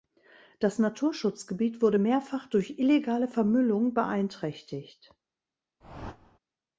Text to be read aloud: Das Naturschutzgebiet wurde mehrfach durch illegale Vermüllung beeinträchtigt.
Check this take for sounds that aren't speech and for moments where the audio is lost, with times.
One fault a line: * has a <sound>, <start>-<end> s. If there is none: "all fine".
* has a whoosh, 5.8-6.4 s